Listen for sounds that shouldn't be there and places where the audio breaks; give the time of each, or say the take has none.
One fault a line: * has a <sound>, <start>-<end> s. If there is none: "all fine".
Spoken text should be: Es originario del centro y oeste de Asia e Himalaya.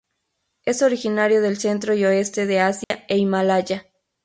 * has a dropout, 2.8-2.9 s